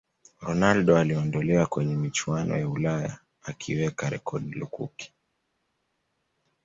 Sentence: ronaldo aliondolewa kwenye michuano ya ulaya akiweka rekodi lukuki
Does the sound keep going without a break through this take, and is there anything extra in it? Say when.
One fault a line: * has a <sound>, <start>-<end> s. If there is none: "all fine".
all fine